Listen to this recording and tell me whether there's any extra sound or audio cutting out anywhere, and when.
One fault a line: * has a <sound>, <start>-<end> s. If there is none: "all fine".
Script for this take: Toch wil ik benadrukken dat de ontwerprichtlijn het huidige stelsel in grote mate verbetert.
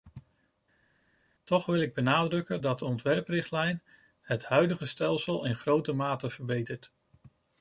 all fine